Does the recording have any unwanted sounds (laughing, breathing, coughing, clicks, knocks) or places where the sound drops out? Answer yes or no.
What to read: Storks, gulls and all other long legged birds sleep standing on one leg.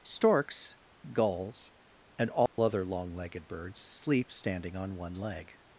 yes